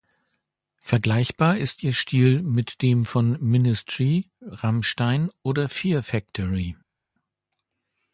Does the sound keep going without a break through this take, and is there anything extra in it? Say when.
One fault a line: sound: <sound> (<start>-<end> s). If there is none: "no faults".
no faults